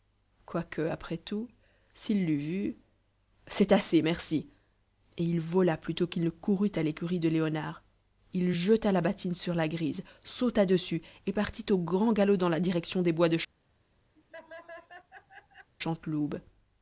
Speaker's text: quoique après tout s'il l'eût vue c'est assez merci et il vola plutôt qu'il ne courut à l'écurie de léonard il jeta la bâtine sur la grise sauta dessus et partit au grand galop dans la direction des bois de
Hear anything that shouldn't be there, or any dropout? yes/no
yes